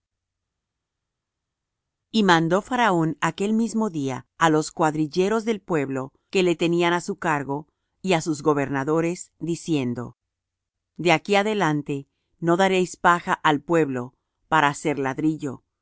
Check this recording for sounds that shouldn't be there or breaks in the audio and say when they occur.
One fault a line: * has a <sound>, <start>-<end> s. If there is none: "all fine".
all fine